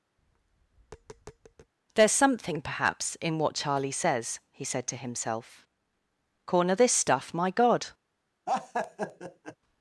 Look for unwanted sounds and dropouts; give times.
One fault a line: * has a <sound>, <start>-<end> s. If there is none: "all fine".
* has a tap, 0.2-1.7 s
* has a laugh, 8.5-9.6 s